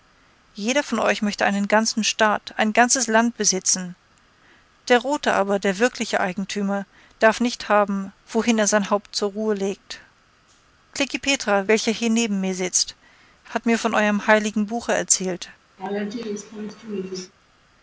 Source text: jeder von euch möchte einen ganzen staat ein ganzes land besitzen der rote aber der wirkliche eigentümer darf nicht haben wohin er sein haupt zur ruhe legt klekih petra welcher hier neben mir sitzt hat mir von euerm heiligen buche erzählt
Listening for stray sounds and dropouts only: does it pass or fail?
fail